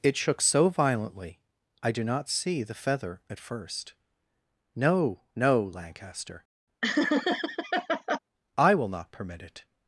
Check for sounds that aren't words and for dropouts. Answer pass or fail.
fail